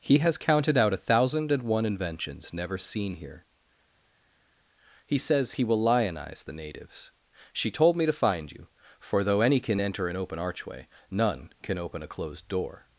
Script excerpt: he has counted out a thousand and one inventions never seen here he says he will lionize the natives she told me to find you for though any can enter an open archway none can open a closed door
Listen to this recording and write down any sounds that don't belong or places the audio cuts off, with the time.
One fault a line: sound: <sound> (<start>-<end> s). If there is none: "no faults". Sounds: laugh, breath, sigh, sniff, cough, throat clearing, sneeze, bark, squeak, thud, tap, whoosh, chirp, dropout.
no faults